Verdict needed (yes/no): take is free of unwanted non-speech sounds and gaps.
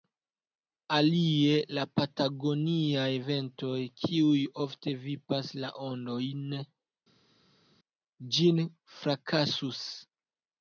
yes